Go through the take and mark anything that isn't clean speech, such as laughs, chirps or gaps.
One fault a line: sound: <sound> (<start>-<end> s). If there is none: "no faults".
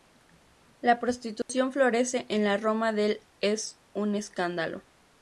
sound: dropout (1.4-1.5 s)